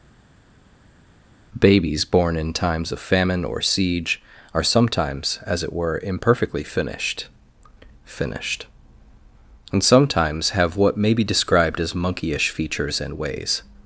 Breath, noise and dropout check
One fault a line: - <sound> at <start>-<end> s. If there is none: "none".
none